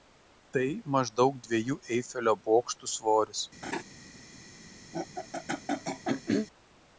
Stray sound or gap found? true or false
true